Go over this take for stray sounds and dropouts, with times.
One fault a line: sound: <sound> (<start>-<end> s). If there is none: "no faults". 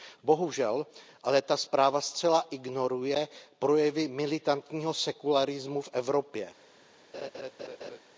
sound: laugh (7.1-8.0 s)